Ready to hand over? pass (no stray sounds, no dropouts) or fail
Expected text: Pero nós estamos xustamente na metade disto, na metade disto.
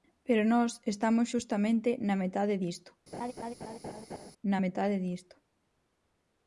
fail